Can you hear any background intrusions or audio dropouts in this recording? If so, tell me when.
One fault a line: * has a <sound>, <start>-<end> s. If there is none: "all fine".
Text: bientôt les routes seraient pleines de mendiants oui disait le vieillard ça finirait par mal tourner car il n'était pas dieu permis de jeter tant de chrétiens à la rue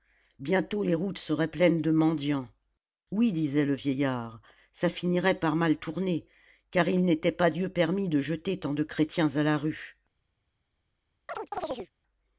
* has a chirp, 11.3-11.9 s